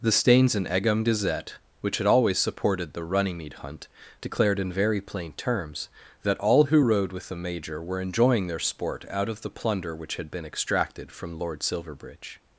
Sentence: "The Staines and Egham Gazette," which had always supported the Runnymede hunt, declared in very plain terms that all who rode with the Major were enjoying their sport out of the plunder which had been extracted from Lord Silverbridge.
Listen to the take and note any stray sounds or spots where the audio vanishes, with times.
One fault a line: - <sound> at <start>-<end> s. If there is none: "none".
none